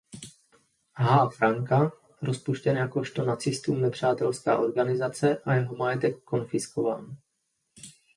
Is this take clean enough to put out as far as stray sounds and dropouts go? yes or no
yes